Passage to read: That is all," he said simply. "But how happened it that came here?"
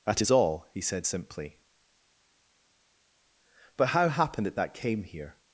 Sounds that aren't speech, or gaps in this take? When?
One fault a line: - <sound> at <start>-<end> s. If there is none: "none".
none